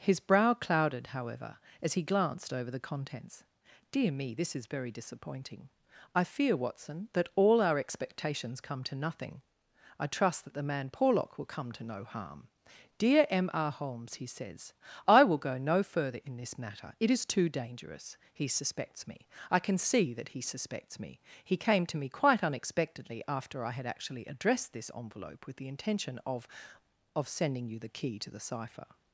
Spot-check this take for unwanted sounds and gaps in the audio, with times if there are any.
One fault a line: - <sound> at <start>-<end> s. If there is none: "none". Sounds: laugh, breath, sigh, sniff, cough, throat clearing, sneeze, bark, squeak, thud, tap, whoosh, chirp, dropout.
none